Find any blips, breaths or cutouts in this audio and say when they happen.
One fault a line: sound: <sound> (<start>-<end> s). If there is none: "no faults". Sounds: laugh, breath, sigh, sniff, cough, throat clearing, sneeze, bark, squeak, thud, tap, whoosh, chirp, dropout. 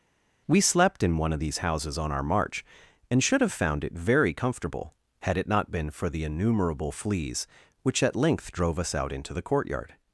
no faults